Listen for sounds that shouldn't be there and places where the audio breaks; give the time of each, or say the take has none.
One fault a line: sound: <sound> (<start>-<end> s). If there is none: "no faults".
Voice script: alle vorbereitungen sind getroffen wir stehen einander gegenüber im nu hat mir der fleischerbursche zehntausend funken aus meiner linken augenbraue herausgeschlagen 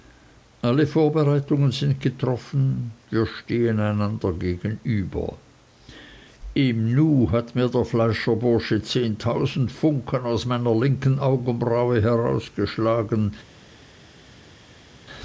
no faults